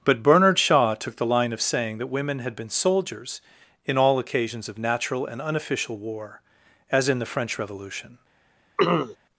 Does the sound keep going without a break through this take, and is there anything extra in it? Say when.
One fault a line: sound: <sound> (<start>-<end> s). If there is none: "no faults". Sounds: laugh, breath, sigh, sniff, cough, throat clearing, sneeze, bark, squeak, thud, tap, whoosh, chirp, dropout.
sound: throat clearing (8.8-9.2 s)